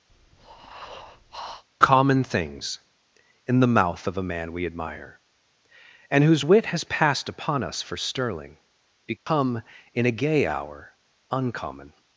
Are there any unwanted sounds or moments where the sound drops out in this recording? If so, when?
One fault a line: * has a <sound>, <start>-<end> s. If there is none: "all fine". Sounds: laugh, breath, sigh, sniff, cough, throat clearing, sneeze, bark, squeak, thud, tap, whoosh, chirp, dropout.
* has a breath, 0.1-1.6 s
* has a dropout, 9.2-9.3 s